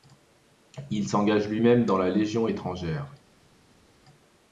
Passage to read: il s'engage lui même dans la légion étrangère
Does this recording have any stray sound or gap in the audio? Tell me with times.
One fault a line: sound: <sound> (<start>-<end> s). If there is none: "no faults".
no faults